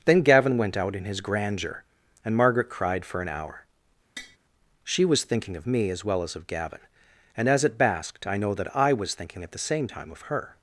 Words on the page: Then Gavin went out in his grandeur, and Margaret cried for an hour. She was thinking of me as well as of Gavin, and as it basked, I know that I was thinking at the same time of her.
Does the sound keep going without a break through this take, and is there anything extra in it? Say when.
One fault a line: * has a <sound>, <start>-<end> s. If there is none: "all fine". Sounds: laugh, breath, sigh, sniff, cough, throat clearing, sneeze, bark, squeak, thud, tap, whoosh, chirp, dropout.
* has a tap, 4.2-4.4 s